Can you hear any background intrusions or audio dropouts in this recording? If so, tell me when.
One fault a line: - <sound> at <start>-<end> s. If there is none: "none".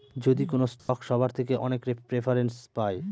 - dropout at 0.8-0.9 s